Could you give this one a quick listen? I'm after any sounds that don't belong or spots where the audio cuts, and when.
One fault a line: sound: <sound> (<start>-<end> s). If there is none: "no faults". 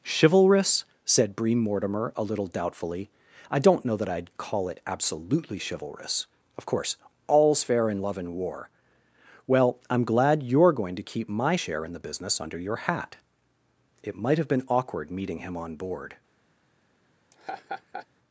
sound: laugh (17.3-18.1 s)